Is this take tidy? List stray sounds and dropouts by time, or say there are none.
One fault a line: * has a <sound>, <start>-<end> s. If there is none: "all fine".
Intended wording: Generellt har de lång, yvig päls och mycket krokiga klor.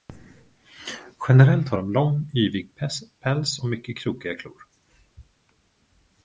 all fine